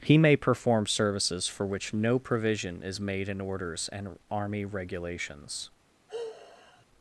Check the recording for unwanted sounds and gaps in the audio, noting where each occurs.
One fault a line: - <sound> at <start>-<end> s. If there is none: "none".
- sigh at 6.1-6.9 s